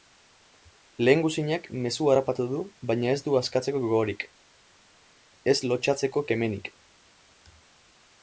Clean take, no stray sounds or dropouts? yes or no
yes